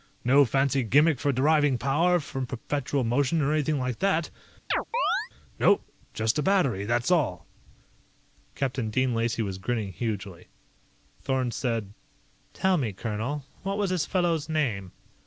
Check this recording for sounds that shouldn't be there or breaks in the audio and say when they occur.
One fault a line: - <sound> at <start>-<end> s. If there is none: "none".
- chirp at 4.7-5.3 s